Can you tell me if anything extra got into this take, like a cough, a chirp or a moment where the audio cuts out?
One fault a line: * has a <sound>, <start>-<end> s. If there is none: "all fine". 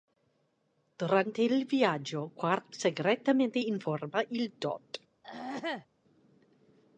* has a throat clearing, 5.2-5.9 s